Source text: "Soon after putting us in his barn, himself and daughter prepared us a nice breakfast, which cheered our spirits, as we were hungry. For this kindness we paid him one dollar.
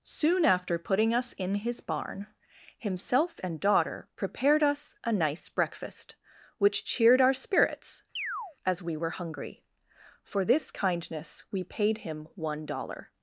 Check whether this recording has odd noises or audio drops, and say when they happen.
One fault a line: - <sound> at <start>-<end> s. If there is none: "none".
- chirp at 8.2-8.6 s